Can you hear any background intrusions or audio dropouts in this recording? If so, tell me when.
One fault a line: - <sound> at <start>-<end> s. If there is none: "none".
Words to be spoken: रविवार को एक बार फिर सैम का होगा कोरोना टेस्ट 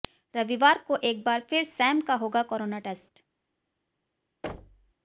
- thud at 4.4-4.9 s